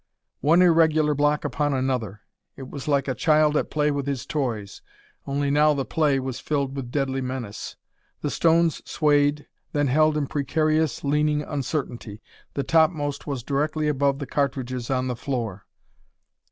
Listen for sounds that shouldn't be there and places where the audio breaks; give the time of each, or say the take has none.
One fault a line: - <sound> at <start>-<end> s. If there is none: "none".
none